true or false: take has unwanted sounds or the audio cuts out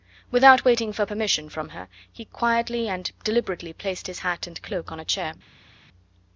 false